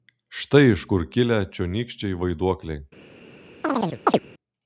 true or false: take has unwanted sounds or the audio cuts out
true